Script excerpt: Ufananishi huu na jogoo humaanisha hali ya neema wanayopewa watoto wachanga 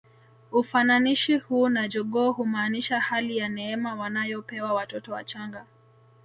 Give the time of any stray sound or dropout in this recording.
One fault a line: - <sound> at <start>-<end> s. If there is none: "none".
none